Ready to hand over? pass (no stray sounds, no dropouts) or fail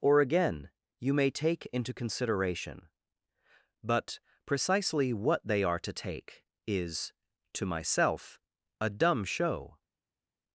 pass